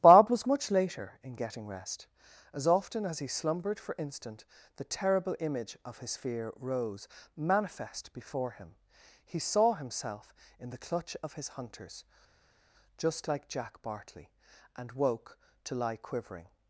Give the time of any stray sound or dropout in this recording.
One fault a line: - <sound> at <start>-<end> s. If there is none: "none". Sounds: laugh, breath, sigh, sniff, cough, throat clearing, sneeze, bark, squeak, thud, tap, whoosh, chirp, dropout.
none